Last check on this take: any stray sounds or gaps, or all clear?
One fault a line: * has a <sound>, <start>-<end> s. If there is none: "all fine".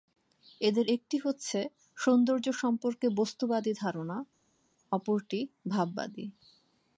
all fine